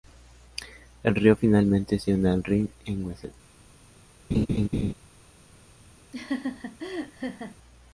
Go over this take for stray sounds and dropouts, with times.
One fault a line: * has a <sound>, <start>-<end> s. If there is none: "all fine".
* has a laugh, 4.3-4.9 s
* has a laugh, 6.1-7.6 s